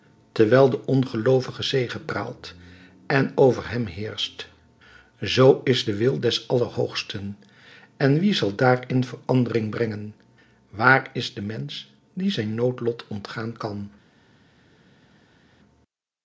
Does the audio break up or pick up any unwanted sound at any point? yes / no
no